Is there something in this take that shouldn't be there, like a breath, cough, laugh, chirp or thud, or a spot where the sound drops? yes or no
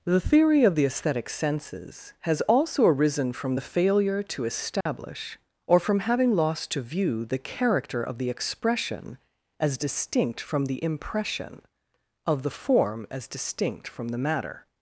yes